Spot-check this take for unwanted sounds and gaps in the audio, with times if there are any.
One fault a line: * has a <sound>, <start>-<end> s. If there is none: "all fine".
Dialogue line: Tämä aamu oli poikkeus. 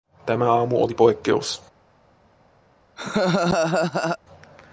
* has a laugh, 3.0-4.2 s